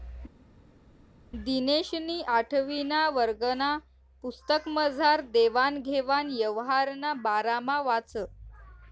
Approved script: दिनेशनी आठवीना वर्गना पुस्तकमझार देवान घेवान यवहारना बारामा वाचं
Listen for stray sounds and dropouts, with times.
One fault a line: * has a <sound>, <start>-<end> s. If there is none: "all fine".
all fine